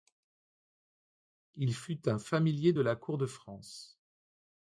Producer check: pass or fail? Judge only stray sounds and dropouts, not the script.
pass